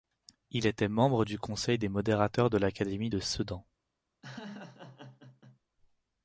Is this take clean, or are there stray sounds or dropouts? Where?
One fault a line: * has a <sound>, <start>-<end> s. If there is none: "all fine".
* has a laugh, 4.2-5.6 s